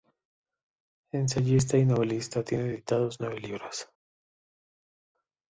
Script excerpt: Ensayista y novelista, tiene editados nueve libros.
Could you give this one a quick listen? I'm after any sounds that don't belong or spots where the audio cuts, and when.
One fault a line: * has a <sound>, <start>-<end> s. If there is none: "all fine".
all fine